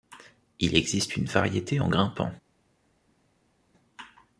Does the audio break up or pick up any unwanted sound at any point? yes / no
no